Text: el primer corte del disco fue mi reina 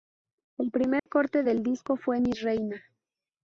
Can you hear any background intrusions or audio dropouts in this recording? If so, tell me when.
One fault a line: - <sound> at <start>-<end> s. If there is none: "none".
- dropout at 1.0-1.1 s